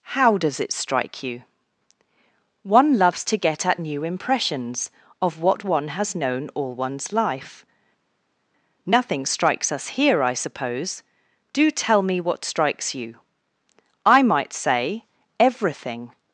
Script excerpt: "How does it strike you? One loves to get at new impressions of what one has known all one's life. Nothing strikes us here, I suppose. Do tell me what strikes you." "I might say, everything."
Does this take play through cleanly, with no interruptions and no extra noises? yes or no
yes